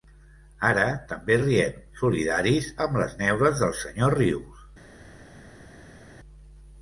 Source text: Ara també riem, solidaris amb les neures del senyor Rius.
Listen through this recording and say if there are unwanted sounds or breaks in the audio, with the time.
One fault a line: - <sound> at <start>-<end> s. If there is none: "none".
none